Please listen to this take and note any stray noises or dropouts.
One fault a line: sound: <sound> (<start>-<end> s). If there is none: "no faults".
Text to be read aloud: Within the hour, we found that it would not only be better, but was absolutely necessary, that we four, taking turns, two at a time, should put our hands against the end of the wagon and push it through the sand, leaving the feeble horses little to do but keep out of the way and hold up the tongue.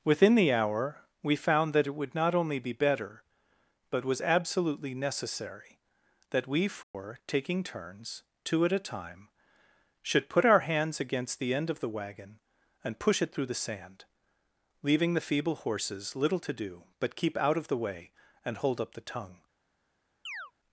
sound: dropout (6.8-6.9 s)
sound: chirp (20.3-20.5 s)